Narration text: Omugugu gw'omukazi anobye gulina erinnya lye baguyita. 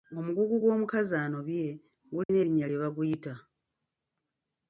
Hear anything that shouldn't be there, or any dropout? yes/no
yes